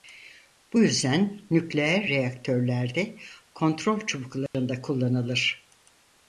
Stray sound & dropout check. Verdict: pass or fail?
fail